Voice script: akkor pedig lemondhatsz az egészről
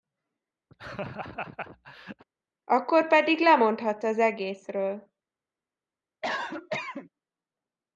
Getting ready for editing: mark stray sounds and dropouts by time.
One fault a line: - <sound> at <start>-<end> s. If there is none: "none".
- laugh at 0.7-2.2 s
- cough at 6.2-7.1 s